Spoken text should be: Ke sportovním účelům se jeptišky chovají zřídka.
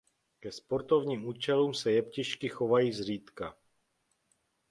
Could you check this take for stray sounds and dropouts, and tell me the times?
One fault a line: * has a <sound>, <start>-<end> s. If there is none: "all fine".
all fine